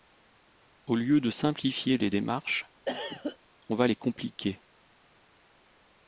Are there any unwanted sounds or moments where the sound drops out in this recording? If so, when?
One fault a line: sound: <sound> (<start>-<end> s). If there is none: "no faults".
sound: cough (2.9-3.4 s)